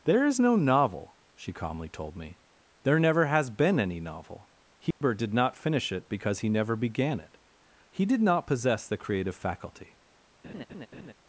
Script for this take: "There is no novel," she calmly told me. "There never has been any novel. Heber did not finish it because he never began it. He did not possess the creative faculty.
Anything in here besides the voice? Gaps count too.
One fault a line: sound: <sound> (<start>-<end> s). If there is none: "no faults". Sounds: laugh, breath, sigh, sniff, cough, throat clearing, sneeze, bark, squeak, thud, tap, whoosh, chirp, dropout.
sound: dropout (4.9-5.0 s)
sound: laugh (10.4-11.1 s)